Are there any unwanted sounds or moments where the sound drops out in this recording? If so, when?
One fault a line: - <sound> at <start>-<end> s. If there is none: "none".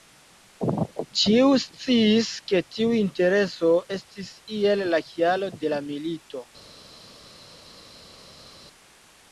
none